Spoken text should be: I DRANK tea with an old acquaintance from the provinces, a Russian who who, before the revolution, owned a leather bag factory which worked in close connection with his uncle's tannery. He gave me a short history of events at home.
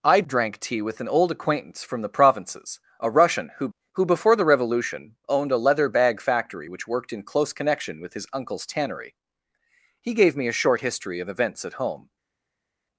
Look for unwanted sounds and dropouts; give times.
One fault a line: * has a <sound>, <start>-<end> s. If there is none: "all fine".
all fine